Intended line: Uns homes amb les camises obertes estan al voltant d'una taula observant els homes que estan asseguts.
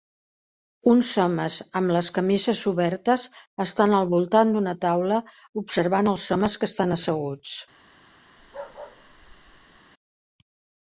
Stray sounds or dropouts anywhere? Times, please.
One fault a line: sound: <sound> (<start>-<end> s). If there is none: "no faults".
sound: bark (8.4-9.8 s)